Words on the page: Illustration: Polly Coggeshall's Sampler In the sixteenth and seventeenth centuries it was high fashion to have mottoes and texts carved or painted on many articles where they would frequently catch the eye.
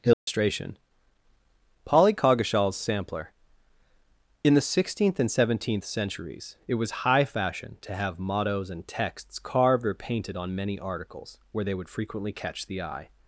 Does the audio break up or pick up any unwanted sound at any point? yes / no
yes